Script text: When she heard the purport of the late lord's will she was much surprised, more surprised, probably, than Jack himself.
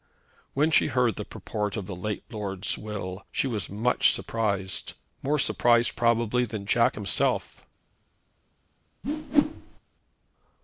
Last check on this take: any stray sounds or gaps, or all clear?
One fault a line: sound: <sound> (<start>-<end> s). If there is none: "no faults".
sound: whoosh (9.0-9.8 s)